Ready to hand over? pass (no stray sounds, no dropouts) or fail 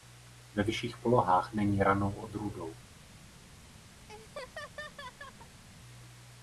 fail